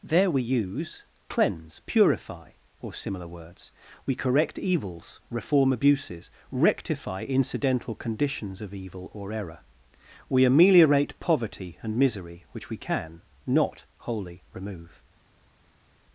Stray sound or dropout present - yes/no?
no